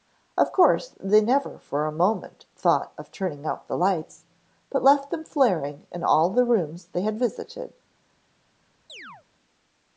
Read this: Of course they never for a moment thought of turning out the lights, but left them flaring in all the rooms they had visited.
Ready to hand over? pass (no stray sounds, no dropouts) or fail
fail